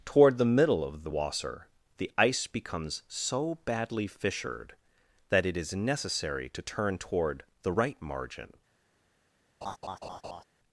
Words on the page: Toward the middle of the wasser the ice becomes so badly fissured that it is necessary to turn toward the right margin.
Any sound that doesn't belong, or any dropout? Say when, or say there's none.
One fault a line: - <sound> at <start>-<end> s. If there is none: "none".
- laugh at 9.6-10.4 s